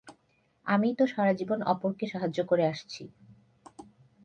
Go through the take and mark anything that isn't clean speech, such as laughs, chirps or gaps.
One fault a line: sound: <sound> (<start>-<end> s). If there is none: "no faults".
no faults